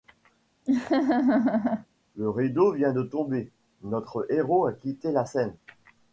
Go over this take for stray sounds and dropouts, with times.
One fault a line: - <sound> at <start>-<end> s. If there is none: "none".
- laugh at 0.7-1.9 s